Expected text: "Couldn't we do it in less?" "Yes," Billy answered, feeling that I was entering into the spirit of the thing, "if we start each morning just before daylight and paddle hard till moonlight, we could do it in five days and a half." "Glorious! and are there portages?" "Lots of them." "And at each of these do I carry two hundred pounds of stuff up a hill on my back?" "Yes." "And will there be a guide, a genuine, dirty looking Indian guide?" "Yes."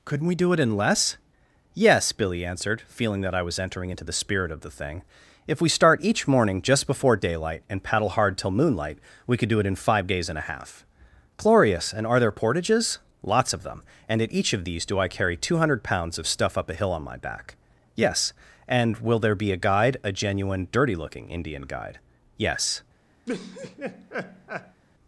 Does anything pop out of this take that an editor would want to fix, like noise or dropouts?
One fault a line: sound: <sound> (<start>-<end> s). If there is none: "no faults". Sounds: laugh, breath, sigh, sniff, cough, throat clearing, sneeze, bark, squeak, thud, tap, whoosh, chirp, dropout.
sound: laugh (23.3-24.8 s)